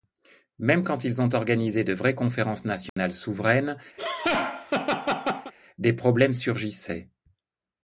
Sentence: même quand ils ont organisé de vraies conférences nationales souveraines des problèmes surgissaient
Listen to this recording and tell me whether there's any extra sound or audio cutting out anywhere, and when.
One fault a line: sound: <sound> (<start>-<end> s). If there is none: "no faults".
sound: dropout (2.9-3.0 s)
sound: laugh (4.0-5.5 s)